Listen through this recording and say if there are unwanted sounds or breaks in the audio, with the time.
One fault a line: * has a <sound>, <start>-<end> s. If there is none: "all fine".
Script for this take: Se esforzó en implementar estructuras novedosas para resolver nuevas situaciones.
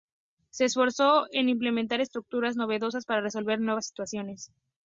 all fine